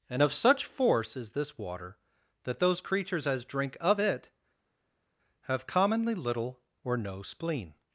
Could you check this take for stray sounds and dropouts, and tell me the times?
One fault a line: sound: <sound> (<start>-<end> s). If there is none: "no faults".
no faults